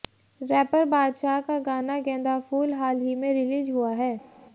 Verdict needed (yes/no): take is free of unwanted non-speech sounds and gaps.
yes